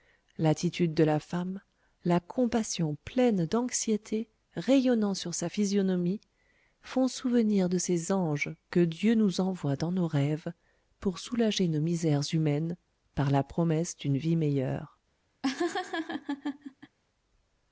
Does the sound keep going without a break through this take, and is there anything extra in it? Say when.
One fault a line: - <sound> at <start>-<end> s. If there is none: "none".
- laugh at 15.4-17.0 s